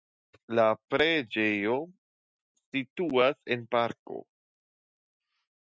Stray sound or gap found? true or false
false